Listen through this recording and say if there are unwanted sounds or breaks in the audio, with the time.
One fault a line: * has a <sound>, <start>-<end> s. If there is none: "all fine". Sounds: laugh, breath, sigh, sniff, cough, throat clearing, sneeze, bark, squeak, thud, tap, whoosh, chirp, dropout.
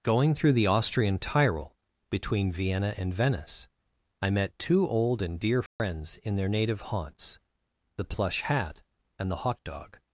* has a dropout, 5.7-5.8 s